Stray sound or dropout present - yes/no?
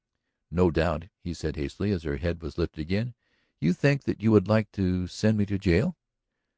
no